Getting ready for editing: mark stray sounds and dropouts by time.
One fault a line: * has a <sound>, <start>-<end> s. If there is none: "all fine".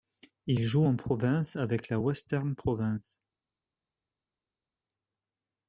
all fine